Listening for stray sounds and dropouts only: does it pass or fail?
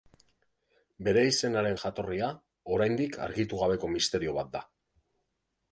pass